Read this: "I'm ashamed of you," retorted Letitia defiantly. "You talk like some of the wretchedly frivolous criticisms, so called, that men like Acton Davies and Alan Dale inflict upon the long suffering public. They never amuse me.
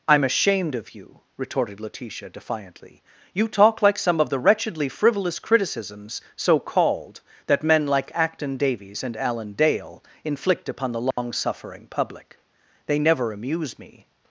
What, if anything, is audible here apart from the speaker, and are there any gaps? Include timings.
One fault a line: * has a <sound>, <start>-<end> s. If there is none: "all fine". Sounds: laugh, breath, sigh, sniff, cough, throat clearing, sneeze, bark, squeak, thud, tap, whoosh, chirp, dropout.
* has a dropout, 11.1-11.2 s